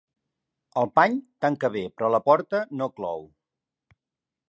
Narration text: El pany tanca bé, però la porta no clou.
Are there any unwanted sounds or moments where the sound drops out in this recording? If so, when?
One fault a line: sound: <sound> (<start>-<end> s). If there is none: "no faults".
no faults